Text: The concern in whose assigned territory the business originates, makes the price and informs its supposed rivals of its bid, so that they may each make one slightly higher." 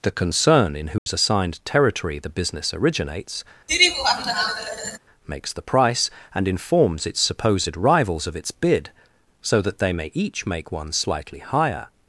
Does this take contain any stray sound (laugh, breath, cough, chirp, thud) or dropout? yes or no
yes